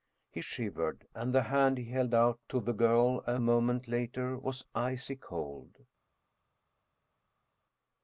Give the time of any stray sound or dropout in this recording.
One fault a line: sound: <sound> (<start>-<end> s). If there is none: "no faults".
no faults